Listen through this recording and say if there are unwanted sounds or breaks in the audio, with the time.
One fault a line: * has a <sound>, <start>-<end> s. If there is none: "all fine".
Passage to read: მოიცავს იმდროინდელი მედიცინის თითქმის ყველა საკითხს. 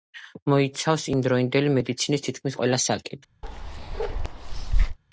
* has a bark, 3.4-5.0 s